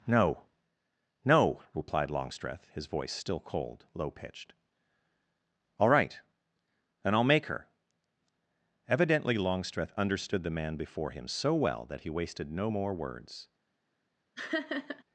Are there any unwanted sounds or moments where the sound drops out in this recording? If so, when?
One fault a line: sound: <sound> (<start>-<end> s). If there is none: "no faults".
sound: laugh (14.4-15.0 s)